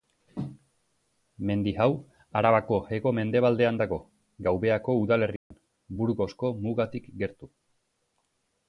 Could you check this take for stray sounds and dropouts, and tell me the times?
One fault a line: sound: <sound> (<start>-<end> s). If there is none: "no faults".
sound: dropout (5.4-5.5 s)